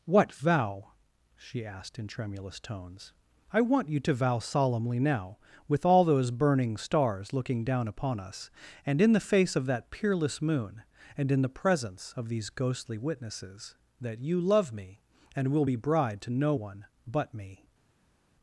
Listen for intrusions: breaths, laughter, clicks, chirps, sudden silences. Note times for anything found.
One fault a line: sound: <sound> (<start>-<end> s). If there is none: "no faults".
no faults